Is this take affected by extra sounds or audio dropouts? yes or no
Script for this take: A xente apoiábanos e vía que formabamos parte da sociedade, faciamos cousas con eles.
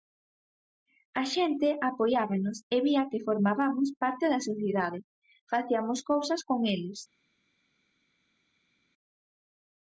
no